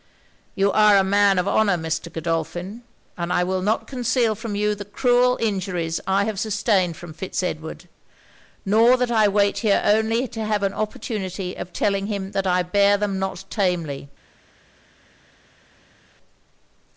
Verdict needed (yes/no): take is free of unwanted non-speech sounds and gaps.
yes